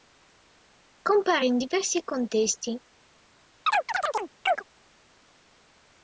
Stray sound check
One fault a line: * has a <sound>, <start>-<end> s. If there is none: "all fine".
* has a chirp, 3.7-4.6 s